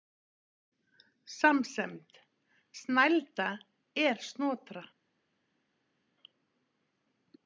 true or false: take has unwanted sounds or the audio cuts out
false